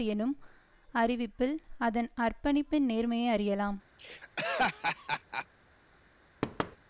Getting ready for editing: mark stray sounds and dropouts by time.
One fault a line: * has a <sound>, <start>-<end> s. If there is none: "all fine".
* has a laugh, 4.0-5.5 s
* has a thud, 6.4-6.8 s